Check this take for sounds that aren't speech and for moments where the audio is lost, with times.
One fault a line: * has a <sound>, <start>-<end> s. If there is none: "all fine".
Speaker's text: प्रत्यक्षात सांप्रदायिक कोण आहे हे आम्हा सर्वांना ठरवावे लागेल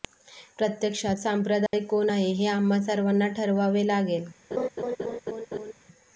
* has a dropout, 1.7-1.7 s
* has a laugh, 4.5-5.7 s